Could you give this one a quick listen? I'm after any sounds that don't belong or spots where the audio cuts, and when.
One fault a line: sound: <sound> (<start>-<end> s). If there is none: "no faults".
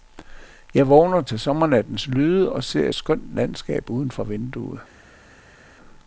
no faults